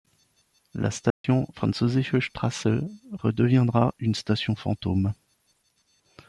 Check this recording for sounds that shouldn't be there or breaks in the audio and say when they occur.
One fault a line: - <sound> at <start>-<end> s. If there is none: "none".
- dropout at 1.1-1.2 s